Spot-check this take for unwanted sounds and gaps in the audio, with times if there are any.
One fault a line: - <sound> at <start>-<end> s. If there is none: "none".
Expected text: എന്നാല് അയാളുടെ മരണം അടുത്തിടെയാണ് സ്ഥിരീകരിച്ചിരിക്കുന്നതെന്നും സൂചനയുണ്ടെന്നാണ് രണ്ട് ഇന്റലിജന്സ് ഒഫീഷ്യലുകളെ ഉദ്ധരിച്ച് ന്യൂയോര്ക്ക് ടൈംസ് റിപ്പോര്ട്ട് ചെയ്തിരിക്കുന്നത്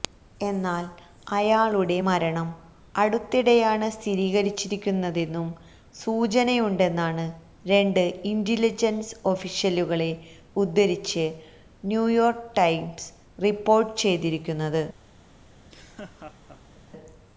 - laugh at 15.5-16.8 s